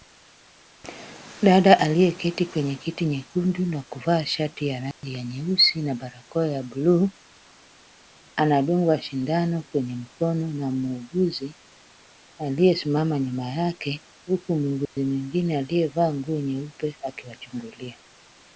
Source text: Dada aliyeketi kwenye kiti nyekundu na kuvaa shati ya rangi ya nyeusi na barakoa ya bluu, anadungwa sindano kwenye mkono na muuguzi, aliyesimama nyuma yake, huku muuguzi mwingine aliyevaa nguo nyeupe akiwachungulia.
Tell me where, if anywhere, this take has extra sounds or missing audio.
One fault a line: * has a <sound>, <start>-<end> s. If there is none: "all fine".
* has a dropout, 4.9-5.0 s
* has a dropout, 14.9-15.0 s